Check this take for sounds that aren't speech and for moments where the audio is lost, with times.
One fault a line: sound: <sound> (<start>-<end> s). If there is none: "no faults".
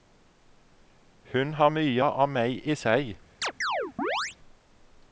sound: chirp (3.4-4.4 s)